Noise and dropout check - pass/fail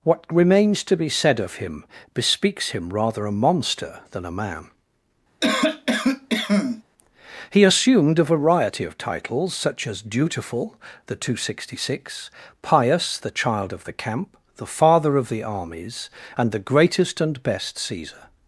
fail